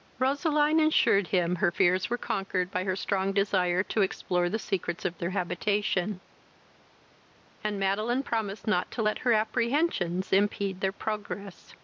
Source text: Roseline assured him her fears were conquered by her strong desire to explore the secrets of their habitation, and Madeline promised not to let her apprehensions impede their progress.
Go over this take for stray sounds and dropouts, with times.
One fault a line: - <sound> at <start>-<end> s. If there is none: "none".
none